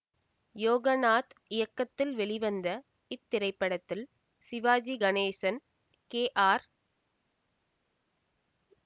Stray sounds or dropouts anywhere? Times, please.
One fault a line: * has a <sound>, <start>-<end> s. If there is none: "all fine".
all fine